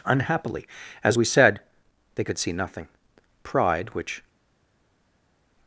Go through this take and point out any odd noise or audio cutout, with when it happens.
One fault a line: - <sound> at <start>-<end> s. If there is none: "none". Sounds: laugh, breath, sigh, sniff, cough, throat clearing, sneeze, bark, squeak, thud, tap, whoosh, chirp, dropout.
none